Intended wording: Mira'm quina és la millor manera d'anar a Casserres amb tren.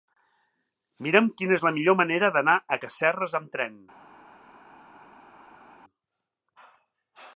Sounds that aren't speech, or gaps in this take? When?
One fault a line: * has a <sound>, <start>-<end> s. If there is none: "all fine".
all fine